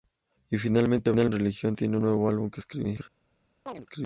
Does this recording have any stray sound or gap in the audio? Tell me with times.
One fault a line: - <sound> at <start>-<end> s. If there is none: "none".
- chirp at 3.7-3.9 s